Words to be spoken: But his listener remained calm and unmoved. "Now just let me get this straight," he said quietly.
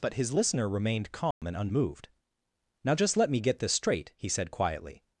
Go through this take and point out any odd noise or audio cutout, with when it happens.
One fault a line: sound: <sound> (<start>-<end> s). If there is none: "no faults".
sound: dropout (1.3-1.4 s)